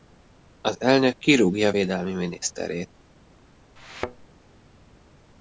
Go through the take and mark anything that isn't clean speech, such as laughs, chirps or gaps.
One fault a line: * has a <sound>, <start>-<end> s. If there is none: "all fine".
* has a thud, 3.8-4.3 s